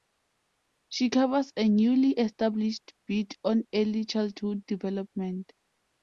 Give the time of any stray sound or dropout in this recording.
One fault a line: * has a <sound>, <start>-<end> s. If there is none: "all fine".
all fine